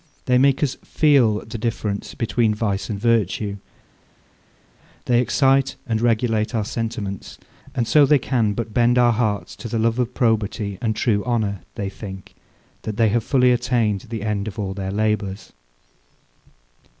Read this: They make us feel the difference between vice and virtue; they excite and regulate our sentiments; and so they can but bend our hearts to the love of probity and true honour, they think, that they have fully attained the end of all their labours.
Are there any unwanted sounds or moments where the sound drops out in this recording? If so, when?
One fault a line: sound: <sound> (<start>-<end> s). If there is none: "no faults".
no faults